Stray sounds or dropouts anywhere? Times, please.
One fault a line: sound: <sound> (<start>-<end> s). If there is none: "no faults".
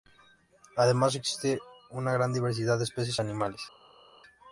no faults